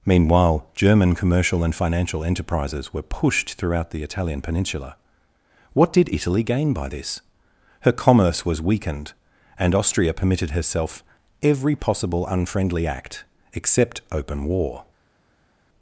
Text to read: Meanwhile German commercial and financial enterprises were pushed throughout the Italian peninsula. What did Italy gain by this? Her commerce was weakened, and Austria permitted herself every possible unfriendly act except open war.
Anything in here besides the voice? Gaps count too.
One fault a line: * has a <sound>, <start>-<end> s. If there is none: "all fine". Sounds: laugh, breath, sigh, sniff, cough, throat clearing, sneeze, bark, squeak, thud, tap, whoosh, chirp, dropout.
all fine